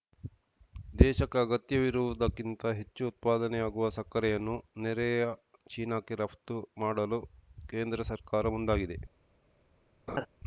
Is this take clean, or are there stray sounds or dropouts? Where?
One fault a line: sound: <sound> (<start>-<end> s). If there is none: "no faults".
sound: laugh (10.1-10.3 s)